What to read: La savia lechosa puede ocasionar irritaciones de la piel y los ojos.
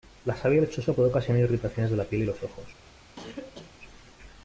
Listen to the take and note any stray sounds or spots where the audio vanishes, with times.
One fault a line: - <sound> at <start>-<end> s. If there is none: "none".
- cough at 3.2-3.7 s